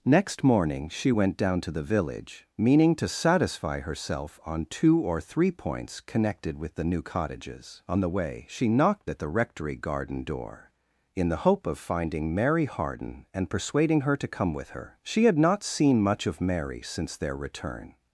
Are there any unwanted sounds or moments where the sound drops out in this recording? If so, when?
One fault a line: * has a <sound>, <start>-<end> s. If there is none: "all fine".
all fine